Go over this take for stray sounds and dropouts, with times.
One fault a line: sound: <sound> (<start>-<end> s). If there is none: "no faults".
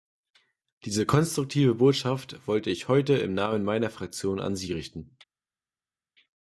no faults